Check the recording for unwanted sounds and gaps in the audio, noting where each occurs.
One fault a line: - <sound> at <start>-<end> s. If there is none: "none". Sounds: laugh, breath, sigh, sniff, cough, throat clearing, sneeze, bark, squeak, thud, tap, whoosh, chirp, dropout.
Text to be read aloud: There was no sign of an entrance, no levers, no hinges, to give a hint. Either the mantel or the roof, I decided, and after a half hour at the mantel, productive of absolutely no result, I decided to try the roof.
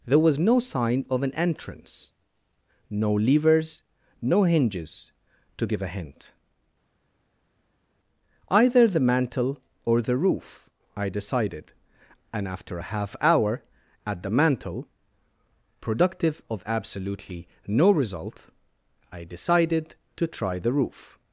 none